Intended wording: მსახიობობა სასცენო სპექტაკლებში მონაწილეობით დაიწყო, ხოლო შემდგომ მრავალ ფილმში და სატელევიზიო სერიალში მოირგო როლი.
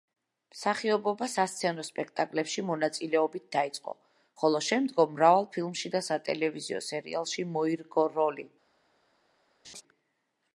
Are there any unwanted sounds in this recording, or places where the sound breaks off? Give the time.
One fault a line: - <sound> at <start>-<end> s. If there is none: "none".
- laugh at 9.6-9.8 s